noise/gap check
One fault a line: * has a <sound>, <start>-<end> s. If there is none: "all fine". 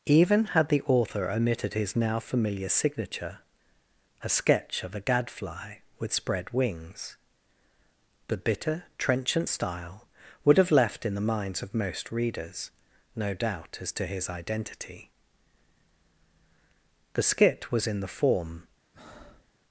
* has a breath, 18.9-19.5 s